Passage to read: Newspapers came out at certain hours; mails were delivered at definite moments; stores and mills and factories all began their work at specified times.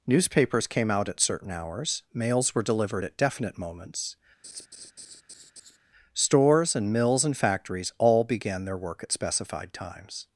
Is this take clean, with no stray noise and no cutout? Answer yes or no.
no